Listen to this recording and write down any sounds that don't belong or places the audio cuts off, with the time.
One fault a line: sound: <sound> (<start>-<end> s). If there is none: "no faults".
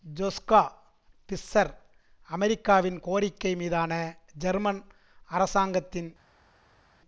no faults